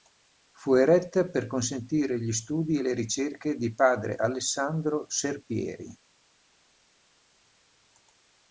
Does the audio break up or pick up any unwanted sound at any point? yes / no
no